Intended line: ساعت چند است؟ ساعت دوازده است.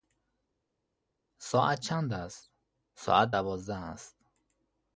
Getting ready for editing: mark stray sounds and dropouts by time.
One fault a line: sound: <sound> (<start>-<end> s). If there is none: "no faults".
no faults